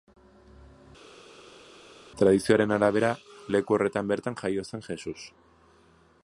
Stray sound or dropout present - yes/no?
no